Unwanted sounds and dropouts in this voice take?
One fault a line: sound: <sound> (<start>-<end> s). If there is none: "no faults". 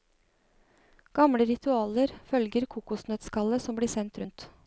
no faults